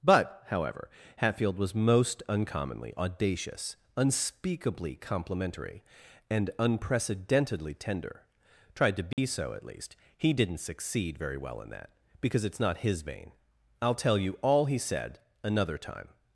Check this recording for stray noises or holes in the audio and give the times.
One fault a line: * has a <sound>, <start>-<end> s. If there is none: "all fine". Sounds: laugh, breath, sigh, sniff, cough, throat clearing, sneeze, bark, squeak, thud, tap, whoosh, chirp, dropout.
* has a dropout, 9.1-9.2 s